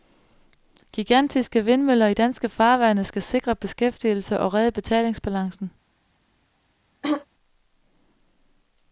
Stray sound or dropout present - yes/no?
yes